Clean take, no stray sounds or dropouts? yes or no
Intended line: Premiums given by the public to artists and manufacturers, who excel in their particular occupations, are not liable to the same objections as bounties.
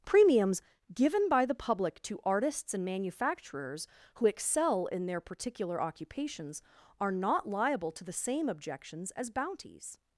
yes